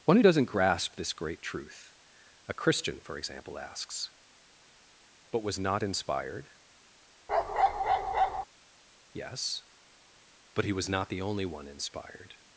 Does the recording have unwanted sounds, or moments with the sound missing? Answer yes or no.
yes